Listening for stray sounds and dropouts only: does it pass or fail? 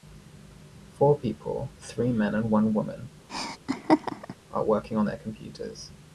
fail